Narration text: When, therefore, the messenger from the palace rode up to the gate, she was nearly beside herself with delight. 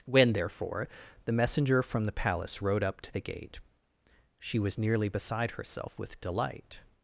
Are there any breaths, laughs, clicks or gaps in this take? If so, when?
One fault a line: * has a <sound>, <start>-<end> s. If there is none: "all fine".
all fine